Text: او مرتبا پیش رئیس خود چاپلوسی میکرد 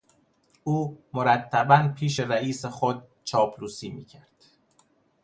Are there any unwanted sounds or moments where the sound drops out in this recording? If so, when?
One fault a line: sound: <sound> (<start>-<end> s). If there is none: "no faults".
no faults